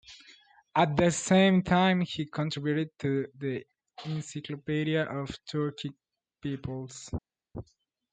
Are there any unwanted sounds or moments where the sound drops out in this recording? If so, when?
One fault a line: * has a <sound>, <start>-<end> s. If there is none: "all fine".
all fine